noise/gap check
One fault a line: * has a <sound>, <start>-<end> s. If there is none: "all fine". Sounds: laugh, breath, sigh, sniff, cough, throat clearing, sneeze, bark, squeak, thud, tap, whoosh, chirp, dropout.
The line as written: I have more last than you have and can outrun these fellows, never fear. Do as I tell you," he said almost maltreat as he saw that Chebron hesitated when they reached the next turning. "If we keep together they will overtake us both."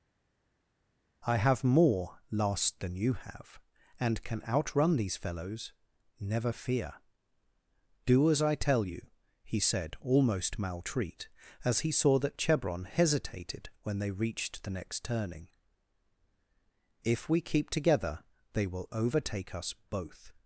all fine